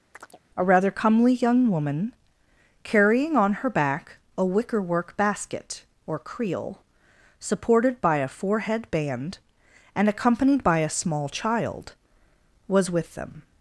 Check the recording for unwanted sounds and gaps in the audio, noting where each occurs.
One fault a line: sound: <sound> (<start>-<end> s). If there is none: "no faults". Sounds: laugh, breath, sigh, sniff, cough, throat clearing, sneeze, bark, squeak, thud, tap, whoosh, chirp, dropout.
sound: chirp (0.1-0.4 s)